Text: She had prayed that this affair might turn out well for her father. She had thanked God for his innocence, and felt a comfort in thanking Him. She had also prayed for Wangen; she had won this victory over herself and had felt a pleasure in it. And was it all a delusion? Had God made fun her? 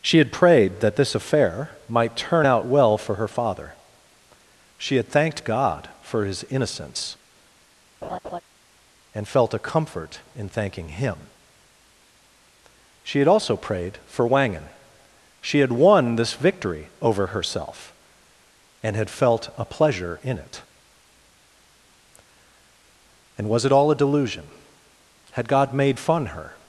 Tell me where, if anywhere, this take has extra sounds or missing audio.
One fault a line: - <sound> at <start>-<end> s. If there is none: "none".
- laugh at 8.0-8.4 s